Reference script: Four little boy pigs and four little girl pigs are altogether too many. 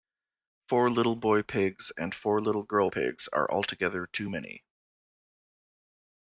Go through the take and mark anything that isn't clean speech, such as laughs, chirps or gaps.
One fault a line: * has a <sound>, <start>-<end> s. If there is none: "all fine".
all fine